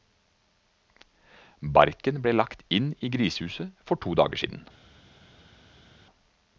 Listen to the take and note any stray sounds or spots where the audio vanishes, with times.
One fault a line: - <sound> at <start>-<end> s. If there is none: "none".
none